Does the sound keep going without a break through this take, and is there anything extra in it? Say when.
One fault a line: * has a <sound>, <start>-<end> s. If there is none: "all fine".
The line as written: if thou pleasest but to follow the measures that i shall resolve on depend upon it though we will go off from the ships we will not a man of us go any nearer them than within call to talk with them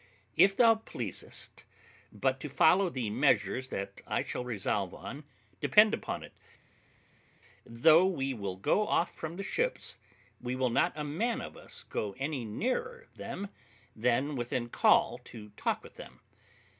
all fine